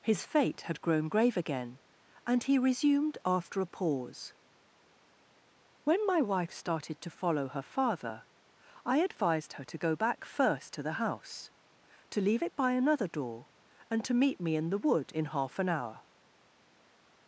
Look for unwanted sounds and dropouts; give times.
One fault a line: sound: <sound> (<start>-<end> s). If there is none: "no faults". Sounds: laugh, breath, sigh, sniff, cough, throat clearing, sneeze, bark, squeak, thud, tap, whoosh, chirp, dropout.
no faults